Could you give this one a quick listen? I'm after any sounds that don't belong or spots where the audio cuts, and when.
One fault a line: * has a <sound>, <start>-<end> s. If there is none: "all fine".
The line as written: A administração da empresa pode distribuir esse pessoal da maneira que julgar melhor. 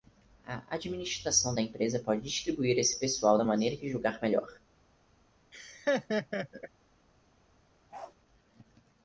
* has a laugh, 5.5-6.7 s
* has a bark, 7.9-8.2 s